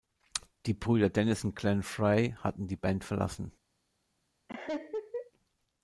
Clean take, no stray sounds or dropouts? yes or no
no